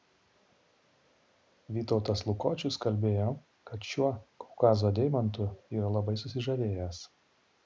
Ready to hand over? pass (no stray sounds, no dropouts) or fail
pass